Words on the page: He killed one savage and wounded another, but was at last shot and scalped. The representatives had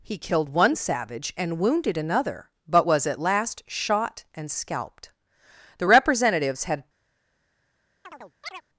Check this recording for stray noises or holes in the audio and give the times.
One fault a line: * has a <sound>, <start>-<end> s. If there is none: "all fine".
* has a chirp, 8.0-8.6 s